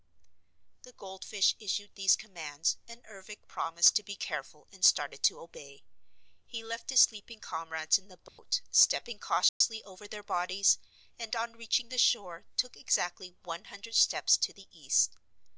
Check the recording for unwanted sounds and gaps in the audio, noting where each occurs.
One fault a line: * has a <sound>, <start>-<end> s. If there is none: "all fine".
* has a dropout, 8.3-8.4 s
* has a dropout, 9.5-9.6 s